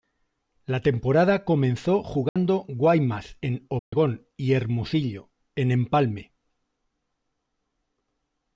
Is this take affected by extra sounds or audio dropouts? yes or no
yes